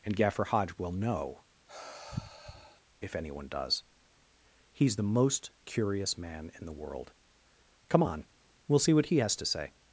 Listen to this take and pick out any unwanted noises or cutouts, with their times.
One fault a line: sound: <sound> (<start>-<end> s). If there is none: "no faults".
sound: sigh (1.7-2.8 s)